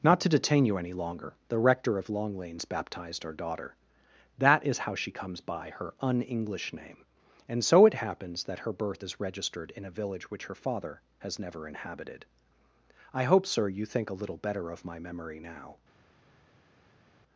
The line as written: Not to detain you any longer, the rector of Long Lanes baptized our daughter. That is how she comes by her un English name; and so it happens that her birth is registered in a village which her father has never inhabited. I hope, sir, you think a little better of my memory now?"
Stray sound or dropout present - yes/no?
no